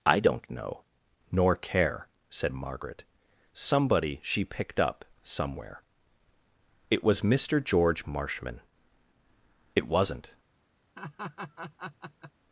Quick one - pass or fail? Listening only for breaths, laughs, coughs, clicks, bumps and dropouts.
fail